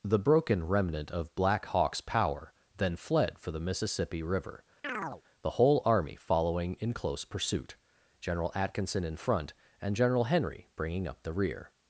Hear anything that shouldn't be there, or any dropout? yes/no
yes